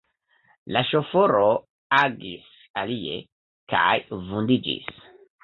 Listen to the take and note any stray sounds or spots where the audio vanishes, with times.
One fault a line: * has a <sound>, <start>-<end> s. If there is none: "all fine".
all fine